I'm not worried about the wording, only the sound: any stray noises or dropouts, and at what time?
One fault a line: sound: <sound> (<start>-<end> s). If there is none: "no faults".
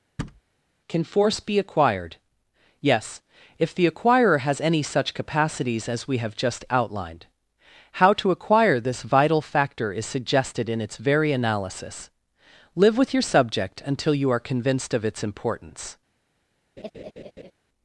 sound: thud (0.2-0.4 s)
sound: laugh (16.8-17.5 s)